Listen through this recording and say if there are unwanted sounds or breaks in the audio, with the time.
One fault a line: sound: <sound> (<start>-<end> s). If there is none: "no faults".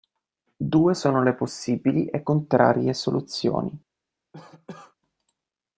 sound: cough (4.3-4.9 s)